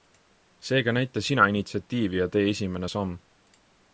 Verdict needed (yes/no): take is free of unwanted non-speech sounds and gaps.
yes